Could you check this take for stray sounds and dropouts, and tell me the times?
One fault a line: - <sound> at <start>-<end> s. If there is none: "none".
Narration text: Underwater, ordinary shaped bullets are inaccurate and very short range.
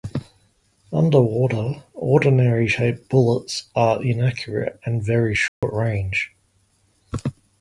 - dropout at 5.5-5.6 s